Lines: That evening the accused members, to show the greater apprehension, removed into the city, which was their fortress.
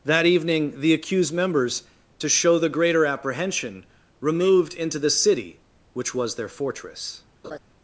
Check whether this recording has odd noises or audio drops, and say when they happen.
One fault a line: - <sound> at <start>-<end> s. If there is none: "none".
- laugh at 7.4-7.6 s